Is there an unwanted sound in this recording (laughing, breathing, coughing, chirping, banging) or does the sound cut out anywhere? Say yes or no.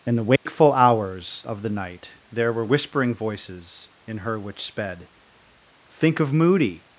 yes